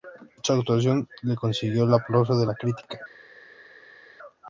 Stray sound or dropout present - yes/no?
no